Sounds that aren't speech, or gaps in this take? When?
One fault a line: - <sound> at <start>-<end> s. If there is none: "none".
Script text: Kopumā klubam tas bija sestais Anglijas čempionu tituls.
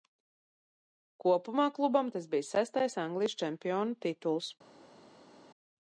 none